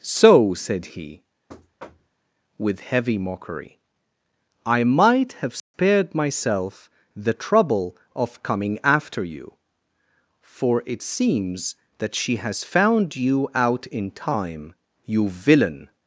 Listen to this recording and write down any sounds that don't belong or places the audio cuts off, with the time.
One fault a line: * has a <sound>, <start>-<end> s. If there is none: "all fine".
* has a thud, 1.5-2.2 s
* has a dropout, 5.6-5.7 s